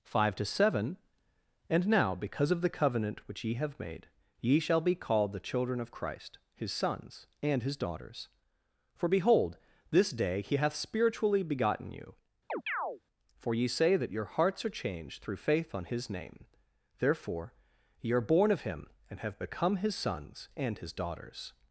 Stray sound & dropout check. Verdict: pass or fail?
fail